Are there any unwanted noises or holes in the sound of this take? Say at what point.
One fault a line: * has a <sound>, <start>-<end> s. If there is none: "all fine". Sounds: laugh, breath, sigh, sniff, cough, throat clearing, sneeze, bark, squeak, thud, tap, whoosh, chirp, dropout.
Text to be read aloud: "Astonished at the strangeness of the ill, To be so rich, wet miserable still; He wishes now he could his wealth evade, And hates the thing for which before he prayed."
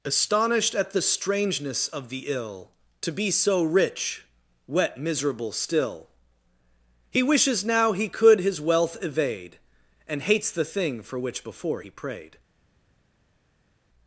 all fine